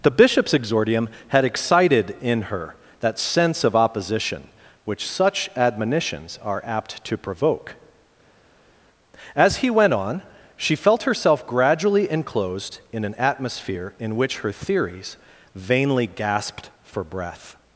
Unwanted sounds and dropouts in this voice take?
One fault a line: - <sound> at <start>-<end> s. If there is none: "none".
none